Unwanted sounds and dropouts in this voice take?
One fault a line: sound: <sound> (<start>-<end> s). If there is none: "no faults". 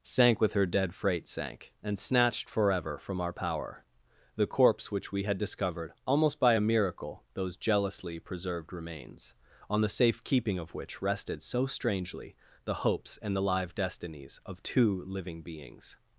no faults